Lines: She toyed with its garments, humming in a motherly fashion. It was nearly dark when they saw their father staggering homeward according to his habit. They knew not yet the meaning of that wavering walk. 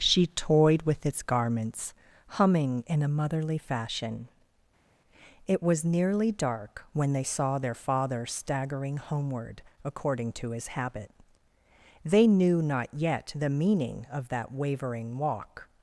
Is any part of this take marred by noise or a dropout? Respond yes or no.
no